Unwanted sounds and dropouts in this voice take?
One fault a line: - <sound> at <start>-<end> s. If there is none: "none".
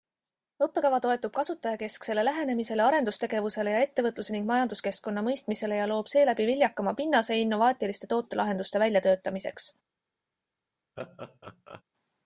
- laugh at 11.0-11.8 s